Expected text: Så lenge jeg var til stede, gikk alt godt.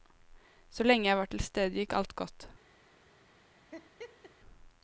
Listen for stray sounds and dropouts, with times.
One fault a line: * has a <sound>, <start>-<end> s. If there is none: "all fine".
* has a laugh, 3.7-4.3 s